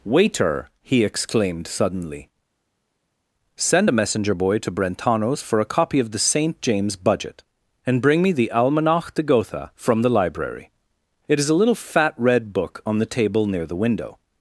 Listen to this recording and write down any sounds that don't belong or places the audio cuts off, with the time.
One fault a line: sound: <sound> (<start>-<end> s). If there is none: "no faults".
no faults